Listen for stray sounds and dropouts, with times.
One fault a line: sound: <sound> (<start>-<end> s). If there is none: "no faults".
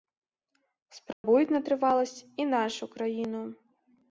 sound: dropout (1.1-1.2 s)